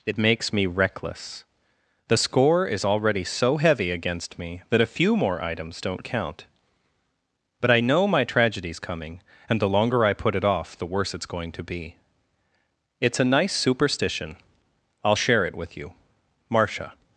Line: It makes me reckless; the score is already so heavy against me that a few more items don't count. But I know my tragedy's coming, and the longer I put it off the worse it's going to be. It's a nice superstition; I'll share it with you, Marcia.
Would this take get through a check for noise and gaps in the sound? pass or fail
pass